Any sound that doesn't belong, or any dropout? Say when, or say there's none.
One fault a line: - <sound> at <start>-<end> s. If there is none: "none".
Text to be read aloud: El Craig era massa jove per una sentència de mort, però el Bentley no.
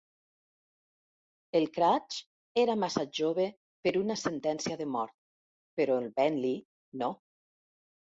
none